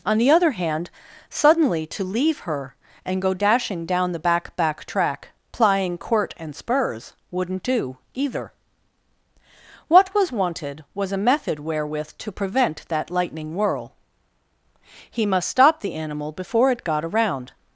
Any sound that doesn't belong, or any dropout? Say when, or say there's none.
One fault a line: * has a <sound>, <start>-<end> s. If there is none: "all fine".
all fine